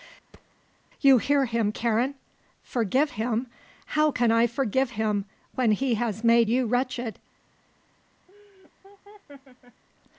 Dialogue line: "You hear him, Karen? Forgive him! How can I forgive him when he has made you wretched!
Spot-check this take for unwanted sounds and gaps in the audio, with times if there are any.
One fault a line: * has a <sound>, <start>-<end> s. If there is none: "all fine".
* has a thud, 0.3-0.5 s
* has a laugh, 8.3-9.8 s